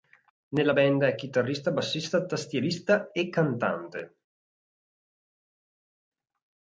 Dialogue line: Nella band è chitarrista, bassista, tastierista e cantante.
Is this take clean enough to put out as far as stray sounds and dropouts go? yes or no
yes